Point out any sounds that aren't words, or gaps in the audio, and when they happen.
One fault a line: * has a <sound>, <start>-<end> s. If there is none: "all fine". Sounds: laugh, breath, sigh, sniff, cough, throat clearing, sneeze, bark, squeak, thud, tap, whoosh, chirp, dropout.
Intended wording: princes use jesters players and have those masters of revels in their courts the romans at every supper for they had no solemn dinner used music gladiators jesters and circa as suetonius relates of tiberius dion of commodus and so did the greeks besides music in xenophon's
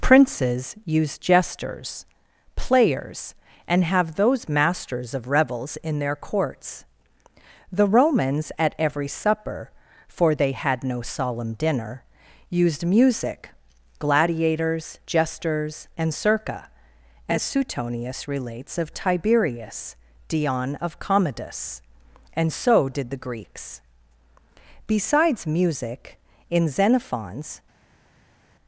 all fine